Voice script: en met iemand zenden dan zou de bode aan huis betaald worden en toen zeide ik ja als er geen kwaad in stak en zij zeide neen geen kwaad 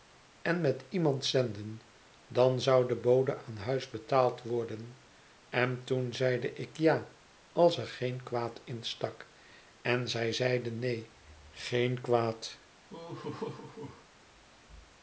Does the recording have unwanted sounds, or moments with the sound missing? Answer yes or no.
yes